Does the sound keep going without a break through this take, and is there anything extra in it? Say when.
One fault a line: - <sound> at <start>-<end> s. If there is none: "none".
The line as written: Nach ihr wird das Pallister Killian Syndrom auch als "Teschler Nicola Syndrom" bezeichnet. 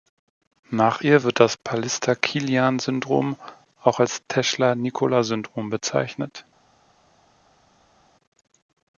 none